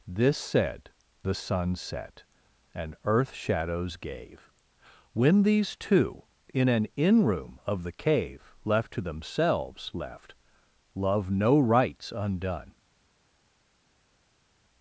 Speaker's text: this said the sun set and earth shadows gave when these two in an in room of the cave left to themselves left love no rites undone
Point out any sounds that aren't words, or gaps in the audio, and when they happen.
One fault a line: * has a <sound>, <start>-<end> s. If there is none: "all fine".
all fine